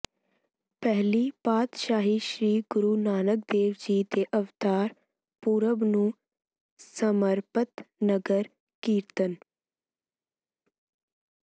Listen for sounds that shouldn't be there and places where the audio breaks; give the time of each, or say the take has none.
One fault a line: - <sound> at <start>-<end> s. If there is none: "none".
none